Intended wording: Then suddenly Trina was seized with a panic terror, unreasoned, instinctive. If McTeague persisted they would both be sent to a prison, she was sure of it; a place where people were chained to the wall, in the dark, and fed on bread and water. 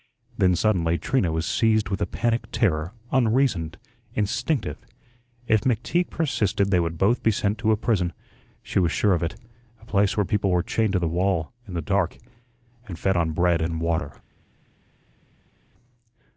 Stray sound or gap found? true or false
false